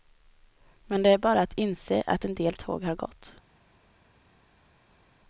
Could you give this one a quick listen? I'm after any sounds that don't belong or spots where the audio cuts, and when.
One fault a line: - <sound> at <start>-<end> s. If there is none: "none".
none